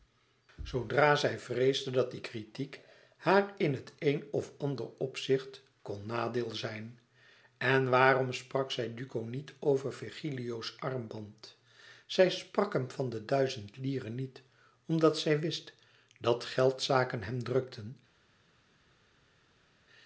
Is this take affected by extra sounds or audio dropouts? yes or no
no